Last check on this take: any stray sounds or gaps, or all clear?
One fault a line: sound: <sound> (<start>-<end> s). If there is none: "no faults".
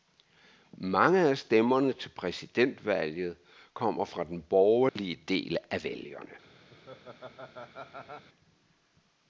sound: dropout (4.9-5.0 s)
sound: laugh (6.7-8.3 s)